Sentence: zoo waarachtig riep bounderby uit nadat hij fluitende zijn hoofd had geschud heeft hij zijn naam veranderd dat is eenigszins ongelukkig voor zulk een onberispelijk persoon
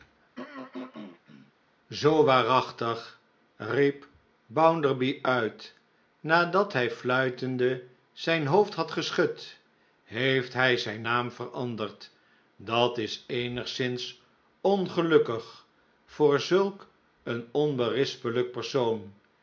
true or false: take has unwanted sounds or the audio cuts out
true